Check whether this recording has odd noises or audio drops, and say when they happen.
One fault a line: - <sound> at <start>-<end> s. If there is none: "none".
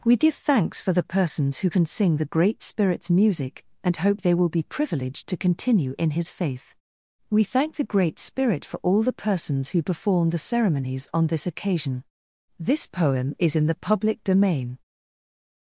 none